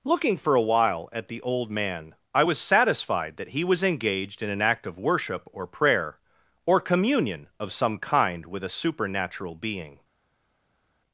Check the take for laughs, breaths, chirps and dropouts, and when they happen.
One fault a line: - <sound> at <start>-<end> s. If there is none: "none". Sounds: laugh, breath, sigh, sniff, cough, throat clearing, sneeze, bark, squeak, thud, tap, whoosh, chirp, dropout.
none